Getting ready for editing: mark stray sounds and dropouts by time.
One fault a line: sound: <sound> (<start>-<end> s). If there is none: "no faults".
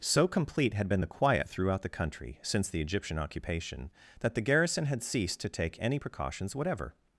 no faults